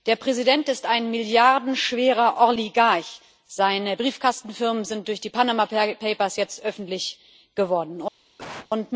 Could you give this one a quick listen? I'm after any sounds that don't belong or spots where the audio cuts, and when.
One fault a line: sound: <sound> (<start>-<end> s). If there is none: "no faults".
sound: cough (8.4-8.7 s)